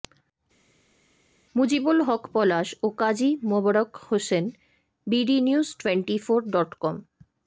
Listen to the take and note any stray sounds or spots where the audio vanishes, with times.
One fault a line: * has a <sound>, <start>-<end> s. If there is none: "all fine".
all fine